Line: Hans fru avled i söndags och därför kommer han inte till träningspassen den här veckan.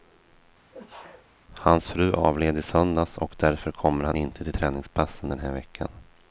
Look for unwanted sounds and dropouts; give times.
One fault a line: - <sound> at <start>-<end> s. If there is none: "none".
- sneeze at 0.7-1.3 s